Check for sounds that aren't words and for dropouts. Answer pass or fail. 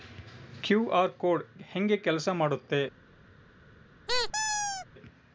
fail